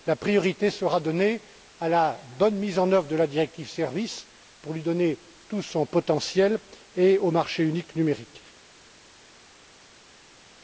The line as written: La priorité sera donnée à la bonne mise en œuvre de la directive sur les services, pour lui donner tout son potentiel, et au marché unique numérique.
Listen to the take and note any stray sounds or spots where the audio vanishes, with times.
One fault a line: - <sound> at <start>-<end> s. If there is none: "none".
none